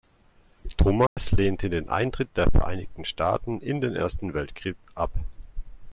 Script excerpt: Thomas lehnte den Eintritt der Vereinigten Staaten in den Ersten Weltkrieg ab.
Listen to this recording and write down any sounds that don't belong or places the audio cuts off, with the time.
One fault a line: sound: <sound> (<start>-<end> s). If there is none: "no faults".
sound: dropout (1.1-1.2 s)